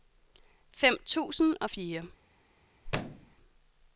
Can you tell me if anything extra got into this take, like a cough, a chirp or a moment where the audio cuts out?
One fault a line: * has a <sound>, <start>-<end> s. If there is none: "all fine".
* has a thud, 2.8-3.4 s